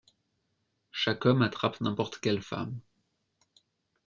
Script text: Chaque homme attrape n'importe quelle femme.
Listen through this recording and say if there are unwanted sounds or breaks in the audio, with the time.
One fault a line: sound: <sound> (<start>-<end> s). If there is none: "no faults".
no faults